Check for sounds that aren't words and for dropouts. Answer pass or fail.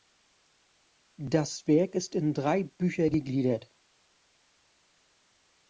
pass